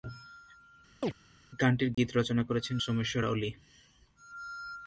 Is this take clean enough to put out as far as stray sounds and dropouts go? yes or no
no